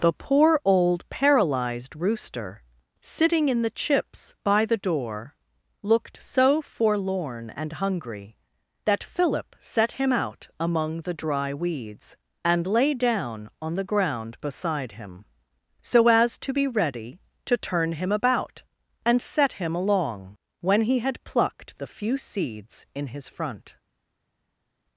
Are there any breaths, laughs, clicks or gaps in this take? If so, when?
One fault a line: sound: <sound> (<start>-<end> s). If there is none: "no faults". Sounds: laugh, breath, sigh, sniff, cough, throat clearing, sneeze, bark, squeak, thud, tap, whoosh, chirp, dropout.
no faults